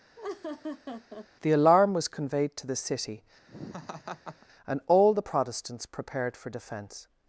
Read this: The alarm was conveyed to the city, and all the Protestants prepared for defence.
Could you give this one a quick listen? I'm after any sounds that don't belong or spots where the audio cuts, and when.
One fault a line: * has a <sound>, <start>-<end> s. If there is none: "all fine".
* has a laugh, 0.2-1.3 s
* has a laugh, 3.5-4.5 s